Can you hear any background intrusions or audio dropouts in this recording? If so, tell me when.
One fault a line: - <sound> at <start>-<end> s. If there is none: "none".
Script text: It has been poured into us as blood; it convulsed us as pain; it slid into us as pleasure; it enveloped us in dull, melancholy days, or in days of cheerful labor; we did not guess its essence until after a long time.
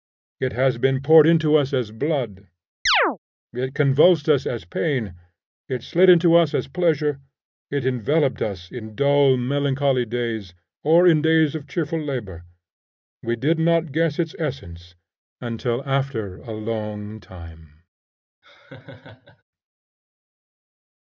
- chirp at 2.9-3.2 s
- laugh at 18.4-19.4 s